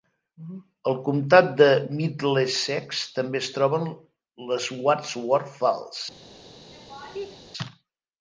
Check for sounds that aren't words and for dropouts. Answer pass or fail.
fail